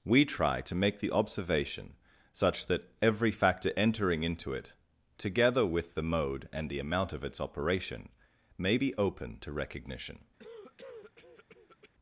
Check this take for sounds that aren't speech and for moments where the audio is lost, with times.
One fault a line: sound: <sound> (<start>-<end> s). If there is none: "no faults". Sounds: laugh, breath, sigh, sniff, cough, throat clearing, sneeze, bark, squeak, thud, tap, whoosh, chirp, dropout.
sound: cough (10.4-11.9 s)